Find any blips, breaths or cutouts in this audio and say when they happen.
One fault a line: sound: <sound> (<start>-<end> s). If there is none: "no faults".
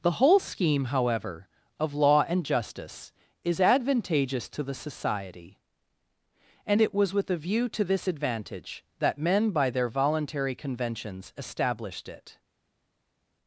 no faults